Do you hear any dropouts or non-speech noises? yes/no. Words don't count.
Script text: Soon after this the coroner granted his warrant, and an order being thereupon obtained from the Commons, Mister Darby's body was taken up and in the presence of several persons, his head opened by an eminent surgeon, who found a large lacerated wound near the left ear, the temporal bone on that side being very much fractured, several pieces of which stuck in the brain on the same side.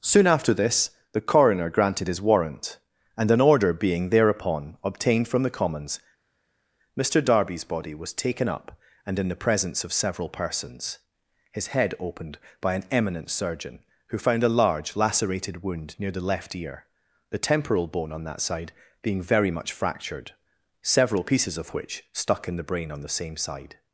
no